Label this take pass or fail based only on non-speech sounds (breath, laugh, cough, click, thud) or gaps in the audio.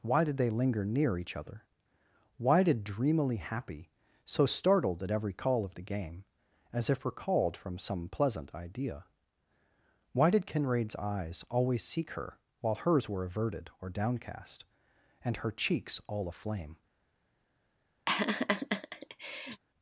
fail